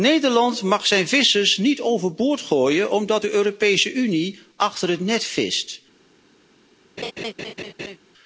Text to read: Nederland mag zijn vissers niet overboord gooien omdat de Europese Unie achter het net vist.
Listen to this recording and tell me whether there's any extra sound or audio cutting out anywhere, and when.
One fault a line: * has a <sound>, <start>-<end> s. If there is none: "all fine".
* has a laugh, 7.0-8.0 s